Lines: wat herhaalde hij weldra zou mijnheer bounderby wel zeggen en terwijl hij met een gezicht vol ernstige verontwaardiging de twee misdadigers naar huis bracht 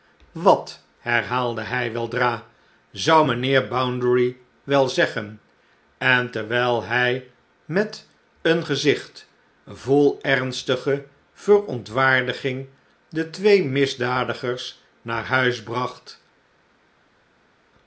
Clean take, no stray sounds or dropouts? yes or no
yes